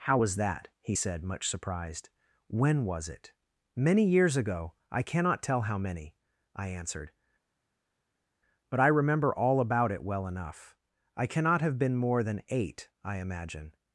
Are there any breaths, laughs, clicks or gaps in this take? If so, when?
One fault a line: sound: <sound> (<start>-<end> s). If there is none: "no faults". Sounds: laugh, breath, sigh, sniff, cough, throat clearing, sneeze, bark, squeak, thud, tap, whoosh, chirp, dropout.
no faults